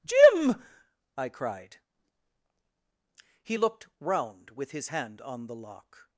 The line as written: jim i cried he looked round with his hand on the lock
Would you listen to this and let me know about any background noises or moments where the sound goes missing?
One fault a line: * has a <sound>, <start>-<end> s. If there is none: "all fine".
all fine